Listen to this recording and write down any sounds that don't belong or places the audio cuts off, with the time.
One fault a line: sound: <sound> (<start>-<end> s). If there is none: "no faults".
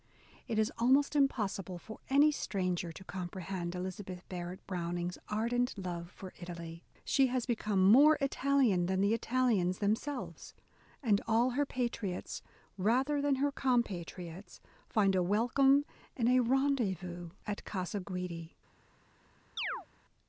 sound: chirp (19.6-19.9 s)